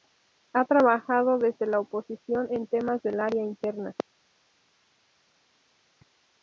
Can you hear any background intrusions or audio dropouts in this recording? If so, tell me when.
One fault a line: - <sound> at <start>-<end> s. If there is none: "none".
none